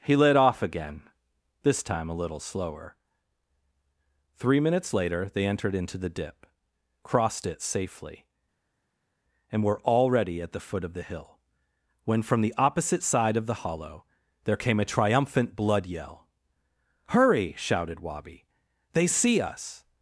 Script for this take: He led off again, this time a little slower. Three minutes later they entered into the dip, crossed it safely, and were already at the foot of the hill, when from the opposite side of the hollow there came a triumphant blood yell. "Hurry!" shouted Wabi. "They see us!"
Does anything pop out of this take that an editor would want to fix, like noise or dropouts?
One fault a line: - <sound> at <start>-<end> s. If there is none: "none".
none